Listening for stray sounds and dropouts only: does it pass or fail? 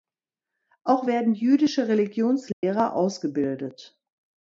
fail